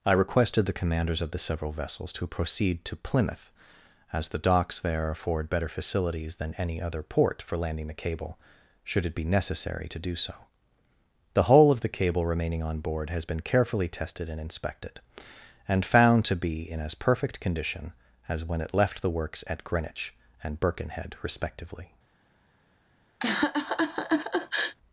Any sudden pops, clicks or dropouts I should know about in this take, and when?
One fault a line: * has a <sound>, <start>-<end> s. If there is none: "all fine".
* has a laugh, 23.2-24.8 s